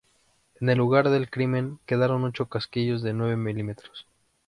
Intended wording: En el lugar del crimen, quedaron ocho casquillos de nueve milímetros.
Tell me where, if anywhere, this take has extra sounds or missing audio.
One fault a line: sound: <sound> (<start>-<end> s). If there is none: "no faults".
no faults